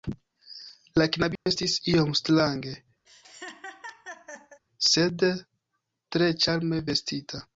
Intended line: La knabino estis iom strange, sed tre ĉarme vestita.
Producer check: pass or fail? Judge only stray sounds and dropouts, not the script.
fail